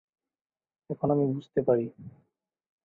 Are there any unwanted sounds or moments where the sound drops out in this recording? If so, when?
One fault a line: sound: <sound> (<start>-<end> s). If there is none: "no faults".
no faults